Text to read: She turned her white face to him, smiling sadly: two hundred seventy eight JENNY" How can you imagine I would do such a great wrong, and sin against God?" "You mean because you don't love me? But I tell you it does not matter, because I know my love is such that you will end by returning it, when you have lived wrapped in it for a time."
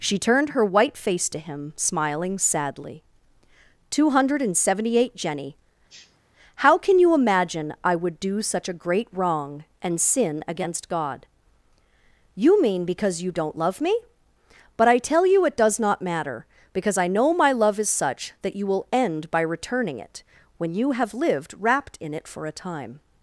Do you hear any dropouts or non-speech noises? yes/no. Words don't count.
yes